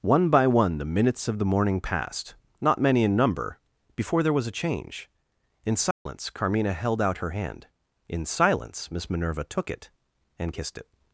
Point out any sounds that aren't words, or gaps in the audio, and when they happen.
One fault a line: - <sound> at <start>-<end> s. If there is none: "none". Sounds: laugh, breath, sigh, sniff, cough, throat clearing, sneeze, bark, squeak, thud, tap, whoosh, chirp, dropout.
- dropout at 5.9-6.1 s